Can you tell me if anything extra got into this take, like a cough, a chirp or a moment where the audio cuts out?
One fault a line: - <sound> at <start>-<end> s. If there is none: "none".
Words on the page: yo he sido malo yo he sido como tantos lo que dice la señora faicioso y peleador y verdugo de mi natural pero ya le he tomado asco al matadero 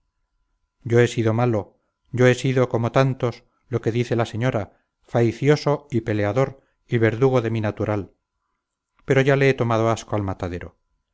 none